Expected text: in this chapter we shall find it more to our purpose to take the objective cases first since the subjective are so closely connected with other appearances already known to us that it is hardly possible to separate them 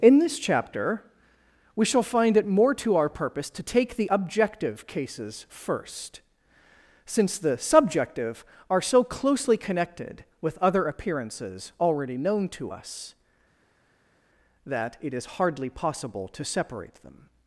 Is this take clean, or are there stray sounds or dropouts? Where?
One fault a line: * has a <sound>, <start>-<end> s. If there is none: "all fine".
all fine